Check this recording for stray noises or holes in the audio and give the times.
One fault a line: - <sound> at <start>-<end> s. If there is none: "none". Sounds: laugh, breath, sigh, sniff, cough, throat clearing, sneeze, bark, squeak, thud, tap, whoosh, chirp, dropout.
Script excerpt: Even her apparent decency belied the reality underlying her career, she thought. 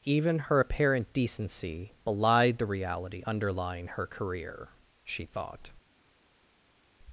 none